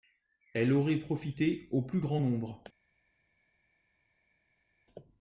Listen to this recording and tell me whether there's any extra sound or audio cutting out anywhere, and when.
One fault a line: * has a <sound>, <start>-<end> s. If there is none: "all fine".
all fine